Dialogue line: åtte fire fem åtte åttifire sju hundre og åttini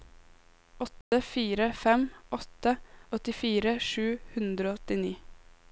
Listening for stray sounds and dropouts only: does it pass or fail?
fail